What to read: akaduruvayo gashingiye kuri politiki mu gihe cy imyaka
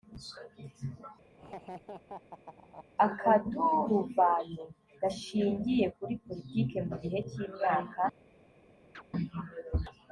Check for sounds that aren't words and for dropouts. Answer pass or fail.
fail